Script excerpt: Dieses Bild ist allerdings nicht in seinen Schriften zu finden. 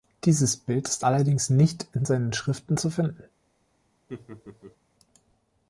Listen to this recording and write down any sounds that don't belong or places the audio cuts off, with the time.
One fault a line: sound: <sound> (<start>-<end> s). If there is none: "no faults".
sound: laugh (4.1-4.8 s)